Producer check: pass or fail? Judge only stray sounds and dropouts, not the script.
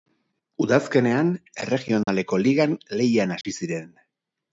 fail